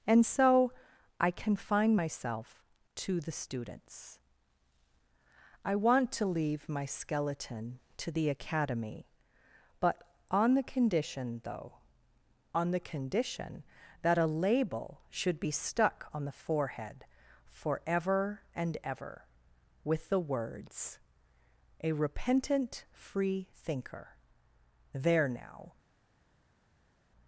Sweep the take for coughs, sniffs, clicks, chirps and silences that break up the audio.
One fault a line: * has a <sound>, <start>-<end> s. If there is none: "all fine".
all fine